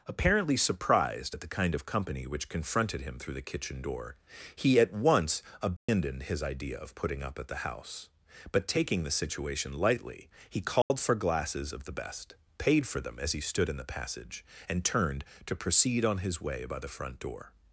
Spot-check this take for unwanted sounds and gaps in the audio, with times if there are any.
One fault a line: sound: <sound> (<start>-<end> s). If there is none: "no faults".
sound: dropout (5.8-5.9 s)
sound: dropout (10.8-10.9 s)